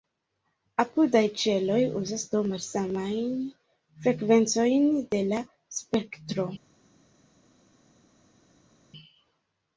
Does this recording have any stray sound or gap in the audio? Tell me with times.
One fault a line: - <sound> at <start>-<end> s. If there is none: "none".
none